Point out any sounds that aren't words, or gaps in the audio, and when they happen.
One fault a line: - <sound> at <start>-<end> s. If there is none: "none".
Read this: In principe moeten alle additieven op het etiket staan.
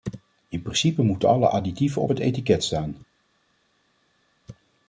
none